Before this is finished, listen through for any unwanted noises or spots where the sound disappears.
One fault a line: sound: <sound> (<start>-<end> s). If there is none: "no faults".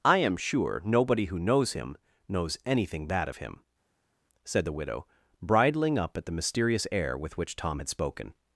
no faults